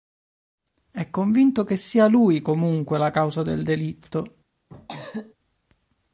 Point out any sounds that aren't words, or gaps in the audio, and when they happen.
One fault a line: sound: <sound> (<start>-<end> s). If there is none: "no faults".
sound: cough (4.7-5.4 s)